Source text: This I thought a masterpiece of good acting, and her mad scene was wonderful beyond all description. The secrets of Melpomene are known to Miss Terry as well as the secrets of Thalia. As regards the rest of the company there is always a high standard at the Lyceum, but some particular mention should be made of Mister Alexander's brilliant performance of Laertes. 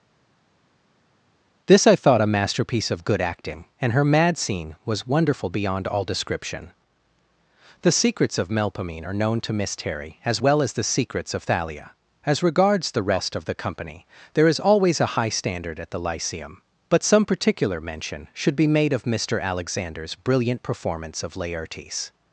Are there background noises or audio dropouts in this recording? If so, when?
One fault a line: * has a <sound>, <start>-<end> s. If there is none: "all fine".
all fine